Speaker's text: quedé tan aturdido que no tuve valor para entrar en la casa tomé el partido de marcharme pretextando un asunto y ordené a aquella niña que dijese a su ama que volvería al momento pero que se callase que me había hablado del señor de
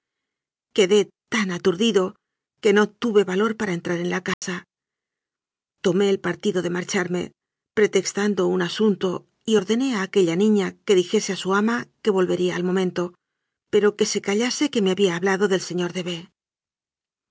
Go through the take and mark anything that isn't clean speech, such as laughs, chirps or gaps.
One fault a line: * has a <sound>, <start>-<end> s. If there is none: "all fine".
* has a dropout, 4.3-4.4 s